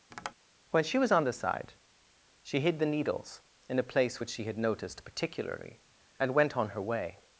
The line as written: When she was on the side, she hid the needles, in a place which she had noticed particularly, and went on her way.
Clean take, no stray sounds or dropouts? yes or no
no